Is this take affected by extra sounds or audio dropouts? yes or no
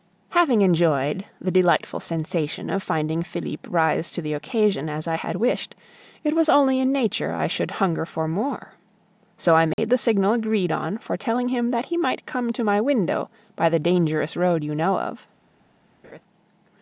yes